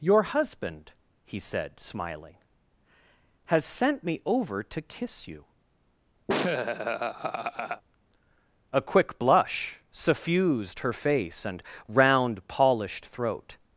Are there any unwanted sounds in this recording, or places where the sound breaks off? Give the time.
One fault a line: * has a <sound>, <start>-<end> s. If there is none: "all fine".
* has a laugh, 6.3-7.8 s